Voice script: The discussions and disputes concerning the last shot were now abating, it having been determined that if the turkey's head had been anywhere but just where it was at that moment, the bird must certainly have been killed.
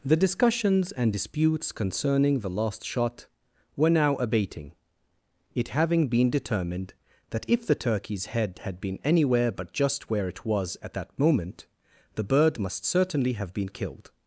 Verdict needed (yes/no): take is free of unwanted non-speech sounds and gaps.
yes